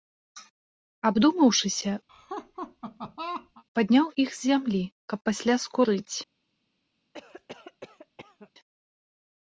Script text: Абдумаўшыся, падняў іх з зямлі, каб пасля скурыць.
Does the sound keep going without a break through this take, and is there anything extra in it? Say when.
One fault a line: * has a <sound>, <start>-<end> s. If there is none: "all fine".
* has a laugh, 2.1-3.6 s
* has a cough, 7.1-8.5 s